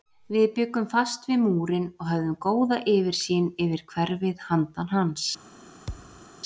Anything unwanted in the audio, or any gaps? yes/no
yes